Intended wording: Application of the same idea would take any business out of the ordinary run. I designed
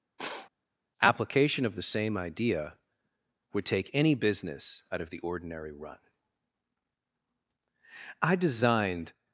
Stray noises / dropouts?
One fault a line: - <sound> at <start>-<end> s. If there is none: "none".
- sniff at 0.2-0.5 s